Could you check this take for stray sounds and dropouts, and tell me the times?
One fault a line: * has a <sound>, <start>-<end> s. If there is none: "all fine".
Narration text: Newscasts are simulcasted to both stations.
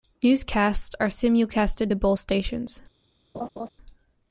* has a laugh, 3.3-3.7 s